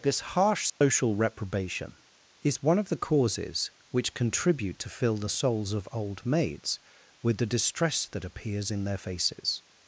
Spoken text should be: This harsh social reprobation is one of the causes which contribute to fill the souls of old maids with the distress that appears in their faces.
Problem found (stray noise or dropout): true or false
true